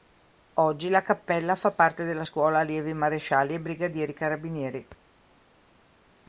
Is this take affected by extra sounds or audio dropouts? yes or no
no